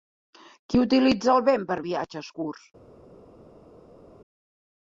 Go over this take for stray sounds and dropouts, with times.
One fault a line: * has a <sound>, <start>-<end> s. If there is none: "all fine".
all fine